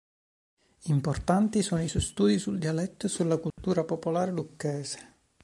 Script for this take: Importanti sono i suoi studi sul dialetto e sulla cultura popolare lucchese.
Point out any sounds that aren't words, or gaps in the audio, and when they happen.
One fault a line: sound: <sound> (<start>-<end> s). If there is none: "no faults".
sound: dropout (3.5-3.6 s)